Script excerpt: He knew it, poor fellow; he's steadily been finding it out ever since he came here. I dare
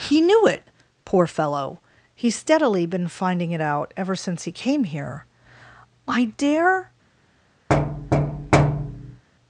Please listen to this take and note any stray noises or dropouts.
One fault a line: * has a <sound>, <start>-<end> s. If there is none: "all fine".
* has a thud, 7.7-9.2 s